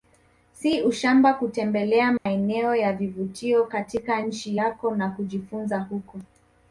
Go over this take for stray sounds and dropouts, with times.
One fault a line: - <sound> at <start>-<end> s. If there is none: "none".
- dropout at 2.2-2.3 s